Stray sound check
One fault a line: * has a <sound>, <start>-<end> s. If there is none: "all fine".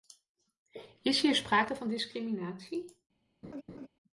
* has a laugh, 3.4-3.9 s